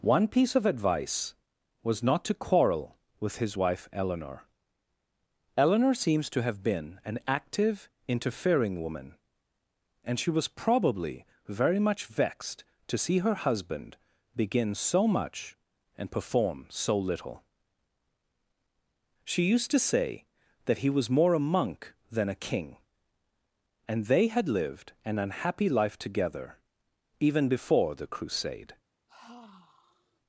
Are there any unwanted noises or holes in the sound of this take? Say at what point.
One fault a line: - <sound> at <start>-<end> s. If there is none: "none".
- sigh at 29.1-30.2 s